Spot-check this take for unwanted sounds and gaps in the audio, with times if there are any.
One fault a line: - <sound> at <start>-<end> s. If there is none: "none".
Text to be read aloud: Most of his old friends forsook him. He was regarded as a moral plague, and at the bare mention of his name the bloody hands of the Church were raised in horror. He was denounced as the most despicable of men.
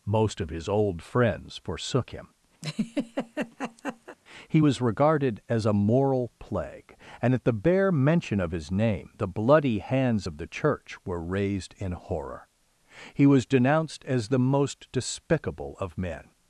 - laugh at 2.6-4.2 s